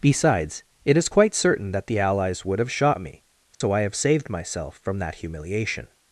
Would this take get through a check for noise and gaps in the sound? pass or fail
fail